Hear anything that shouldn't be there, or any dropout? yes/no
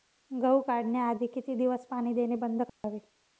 yes